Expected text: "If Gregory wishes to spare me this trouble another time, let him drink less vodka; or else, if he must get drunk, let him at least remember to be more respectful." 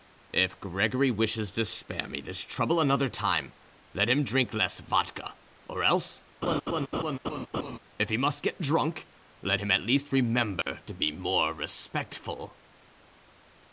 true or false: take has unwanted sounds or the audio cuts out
true